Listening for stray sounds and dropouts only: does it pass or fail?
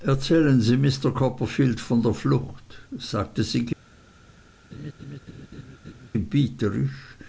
fail